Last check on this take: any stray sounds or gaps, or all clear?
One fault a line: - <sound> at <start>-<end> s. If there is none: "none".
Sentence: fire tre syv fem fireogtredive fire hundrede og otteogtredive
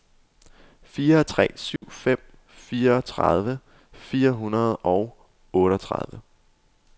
- dropout at 1.8-1.8 s